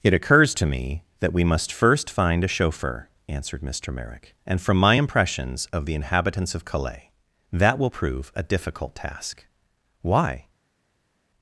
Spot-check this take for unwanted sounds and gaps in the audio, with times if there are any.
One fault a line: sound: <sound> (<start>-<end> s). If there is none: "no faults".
no faults